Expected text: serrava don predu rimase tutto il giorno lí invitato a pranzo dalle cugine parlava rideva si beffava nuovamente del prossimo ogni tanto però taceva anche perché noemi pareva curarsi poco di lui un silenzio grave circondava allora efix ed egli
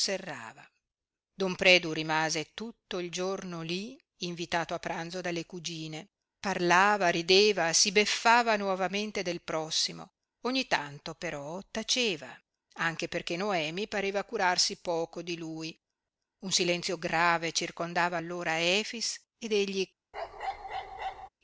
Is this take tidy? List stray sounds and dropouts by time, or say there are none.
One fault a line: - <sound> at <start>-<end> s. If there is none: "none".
- bark at 20.1-21.3 s